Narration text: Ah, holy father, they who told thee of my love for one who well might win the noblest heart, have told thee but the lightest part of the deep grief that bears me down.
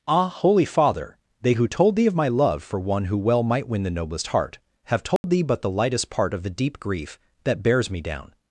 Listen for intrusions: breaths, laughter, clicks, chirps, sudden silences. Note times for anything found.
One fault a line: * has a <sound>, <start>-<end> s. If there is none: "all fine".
* has a dropout, 5.2-5.2 s